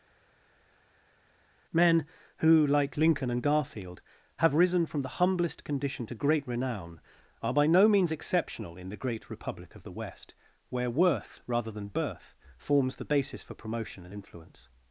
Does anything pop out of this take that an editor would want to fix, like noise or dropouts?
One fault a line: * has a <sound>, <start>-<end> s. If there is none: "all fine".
all fine